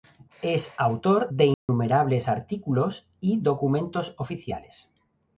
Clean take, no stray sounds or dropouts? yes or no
no